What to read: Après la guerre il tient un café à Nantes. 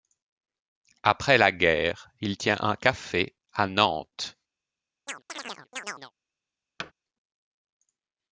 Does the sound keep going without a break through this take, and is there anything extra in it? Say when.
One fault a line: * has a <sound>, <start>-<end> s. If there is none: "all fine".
* has a chirp, 5.1-6.1 s
* has a thud, 6.8-6.9 s